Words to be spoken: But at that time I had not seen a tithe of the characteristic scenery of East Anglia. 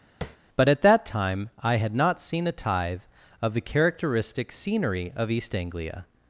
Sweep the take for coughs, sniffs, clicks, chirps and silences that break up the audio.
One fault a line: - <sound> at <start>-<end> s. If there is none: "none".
- tap at 0.2-0.4 s